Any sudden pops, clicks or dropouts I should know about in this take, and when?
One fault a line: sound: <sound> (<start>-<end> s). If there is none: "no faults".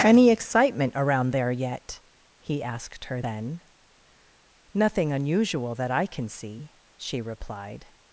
no faults